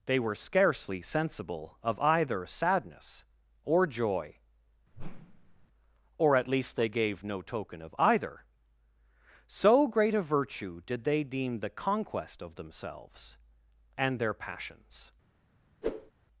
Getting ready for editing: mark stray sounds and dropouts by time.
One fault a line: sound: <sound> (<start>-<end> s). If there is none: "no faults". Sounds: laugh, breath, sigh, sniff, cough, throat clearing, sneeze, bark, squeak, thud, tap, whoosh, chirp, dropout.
sound: whoosh (4.9-5.7 s)
sound: whoosh (15.8-16.1 s)